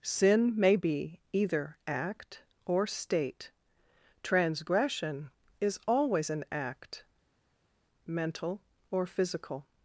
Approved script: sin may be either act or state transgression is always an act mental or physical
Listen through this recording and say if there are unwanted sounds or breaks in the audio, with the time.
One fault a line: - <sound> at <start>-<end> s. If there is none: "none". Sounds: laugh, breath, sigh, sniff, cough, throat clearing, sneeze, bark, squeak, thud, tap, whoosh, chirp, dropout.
none